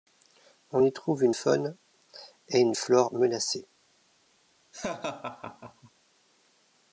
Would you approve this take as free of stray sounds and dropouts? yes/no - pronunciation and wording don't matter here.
no